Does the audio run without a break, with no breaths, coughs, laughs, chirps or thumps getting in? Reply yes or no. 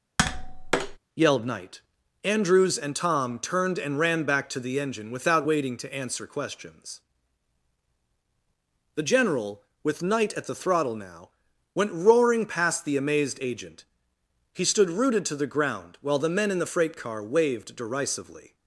no